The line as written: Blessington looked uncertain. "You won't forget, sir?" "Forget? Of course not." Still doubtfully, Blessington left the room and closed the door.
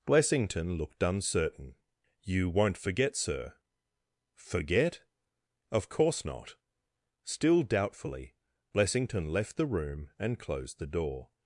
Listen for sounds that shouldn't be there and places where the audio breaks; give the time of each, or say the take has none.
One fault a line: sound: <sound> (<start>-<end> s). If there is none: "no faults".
no faults